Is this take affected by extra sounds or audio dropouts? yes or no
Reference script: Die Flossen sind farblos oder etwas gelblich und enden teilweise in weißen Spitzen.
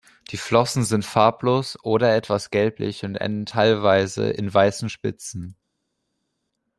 no